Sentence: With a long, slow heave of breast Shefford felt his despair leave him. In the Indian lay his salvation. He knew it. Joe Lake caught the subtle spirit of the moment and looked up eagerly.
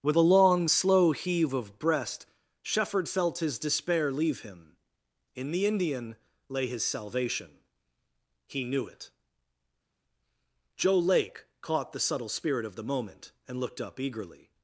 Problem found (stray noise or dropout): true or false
false